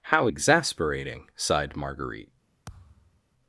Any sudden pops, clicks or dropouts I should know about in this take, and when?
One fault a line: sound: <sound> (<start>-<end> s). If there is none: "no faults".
sound: thud (2.7-3.2 s)